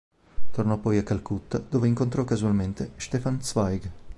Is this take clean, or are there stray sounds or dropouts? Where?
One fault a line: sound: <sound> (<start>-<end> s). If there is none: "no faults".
no faults